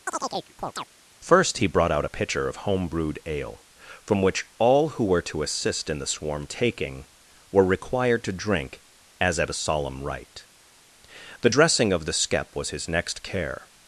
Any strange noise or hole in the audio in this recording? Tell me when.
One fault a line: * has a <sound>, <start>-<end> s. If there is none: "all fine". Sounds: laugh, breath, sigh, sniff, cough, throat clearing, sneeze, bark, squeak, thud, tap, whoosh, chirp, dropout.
* has a chirp, 0.1-0.9 s